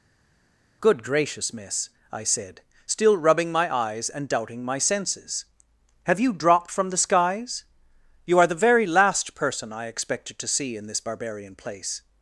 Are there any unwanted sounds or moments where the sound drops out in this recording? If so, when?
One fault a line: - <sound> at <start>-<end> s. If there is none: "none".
none